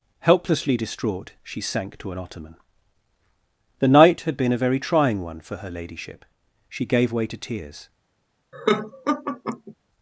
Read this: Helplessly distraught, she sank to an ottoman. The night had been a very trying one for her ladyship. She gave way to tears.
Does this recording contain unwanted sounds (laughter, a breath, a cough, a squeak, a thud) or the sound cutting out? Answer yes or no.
yes